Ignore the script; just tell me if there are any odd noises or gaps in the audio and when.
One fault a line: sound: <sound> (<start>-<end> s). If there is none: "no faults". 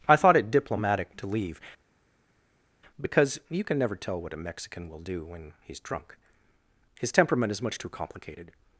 no faults